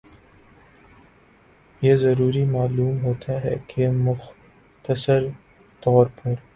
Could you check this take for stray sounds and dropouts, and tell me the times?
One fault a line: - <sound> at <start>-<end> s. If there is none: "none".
none